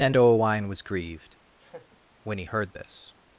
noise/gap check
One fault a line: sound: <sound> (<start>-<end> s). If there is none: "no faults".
sound: laugh (1.6-2.0 s)